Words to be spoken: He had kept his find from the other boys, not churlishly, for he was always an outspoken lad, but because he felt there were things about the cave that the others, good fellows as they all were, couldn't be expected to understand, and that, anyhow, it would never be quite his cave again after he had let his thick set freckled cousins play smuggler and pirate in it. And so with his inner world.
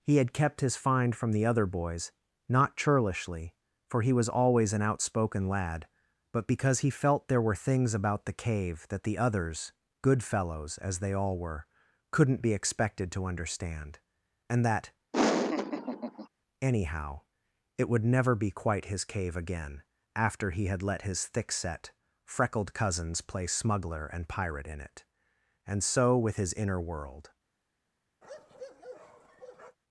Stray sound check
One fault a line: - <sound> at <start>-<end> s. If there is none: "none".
- laugh at 15.1-16.3 s
- bark at 28.2-29.8 s